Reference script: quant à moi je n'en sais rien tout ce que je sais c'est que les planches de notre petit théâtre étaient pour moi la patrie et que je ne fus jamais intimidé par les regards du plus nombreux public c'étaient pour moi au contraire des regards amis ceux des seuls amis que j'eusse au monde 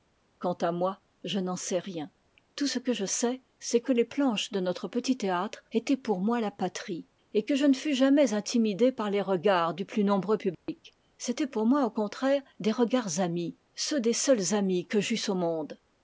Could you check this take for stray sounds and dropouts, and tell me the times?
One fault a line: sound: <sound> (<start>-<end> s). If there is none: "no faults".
sound: dropout (10.5-10.7 s)